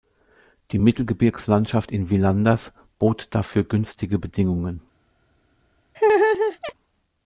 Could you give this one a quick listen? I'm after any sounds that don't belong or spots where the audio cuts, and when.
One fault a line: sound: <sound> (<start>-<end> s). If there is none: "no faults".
sound: laugh (5.9-6.7 s)